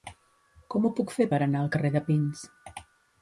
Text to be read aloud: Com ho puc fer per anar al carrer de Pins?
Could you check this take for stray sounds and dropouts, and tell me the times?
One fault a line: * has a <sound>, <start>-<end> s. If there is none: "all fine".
all fine